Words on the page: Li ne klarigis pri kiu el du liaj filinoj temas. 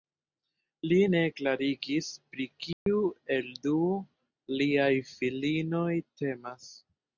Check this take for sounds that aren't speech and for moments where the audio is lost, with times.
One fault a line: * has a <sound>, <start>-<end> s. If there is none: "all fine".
* has a dropout, 2.7-2.9 s